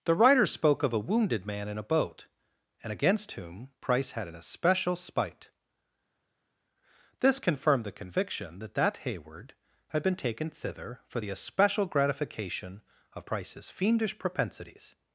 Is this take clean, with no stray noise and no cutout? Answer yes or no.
yes